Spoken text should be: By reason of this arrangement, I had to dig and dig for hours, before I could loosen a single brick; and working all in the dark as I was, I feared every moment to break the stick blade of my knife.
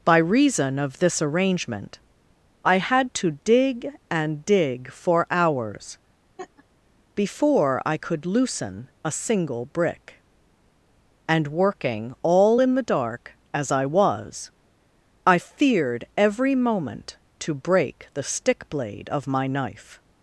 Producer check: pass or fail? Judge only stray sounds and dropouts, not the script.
fail